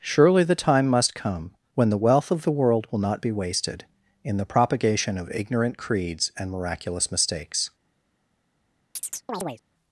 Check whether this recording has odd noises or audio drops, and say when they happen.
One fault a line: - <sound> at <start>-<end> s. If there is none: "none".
- chirp at 9.0-9.6 s